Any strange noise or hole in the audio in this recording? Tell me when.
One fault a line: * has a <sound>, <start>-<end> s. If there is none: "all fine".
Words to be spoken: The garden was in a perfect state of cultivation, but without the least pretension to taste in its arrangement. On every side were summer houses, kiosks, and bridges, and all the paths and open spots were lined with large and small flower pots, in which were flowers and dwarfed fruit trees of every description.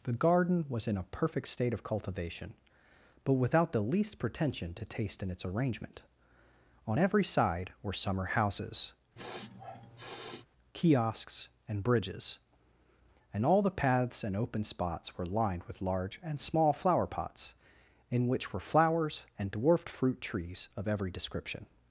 * has a sniff, 9.2-10.5 s